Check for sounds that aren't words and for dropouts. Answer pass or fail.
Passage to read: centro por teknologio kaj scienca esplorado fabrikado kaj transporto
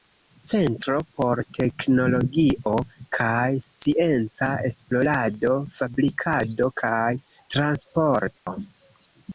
fail